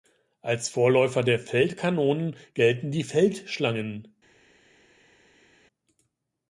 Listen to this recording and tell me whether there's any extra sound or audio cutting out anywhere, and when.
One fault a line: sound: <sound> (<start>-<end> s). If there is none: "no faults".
no faults